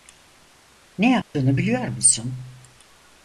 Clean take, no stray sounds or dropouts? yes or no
no